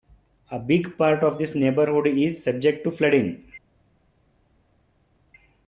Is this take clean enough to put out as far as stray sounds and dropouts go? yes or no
yes